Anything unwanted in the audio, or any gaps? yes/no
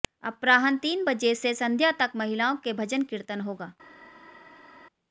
no